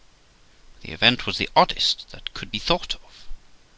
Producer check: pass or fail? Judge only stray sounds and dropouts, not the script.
pass